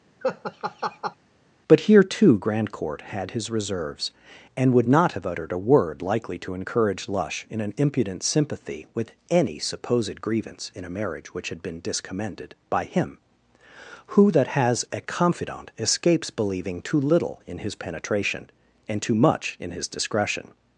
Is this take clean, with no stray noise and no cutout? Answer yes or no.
no